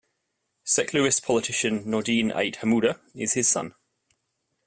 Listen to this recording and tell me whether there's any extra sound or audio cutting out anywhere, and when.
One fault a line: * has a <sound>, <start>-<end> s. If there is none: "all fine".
all fine